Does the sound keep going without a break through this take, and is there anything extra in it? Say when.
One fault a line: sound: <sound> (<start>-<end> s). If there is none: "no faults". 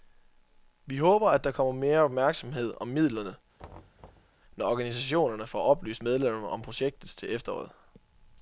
sound: thud (3.6-4.4 s)